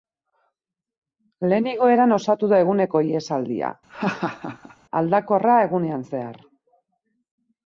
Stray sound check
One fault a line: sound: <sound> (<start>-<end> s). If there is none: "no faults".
sound: laugh (3.9-4.8 s)